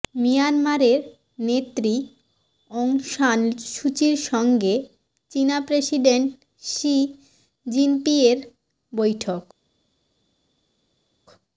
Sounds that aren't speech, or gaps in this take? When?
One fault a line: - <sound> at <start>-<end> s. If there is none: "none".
none